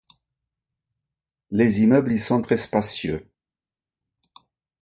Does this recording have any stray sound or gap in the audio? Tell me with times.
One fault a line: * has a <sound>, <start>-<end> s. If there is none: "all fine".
all fine